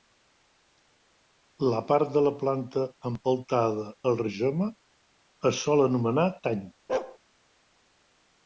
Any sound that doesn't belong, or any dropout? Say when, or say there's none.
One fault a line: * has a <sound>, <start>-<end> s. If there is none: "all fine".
* has a bark, 6.9-7.2 s